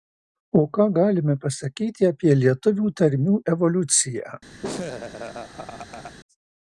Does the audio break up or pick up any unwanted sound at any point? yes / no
yes